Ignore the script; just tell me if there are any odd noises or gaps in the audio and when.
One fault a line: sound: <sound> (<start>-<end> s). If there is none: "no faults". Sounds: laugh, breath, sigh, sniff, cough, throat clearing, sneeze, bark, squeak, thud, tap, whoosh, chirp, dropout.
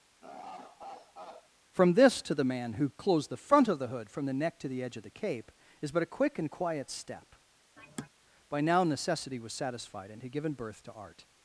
sound: laugh (0.2-1.5 s)
sound: sigh (7.8-8.1 s)